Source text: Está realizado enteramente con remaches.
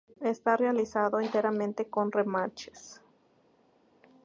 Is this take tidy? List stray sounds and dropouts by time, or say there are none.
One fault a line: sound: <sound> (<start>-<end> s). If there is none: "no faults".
no faults